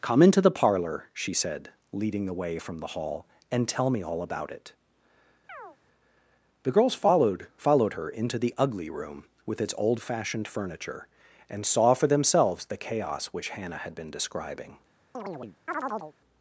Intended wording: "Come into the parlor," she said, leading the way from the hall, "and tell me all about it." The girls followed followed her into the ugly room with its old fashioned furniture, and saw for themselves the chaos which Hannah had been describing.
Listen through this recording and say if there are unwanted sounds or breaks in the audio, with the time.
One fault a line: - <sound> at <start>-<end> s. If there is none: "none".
- chirp at 5.5-5.8 s
- chirp at 15.1-16.1 s